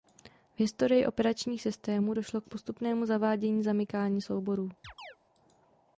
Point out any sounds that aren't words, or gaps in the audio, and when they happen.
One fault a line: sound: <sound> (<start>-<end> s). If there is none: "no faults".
sound: chirp (4.8-5.2 s)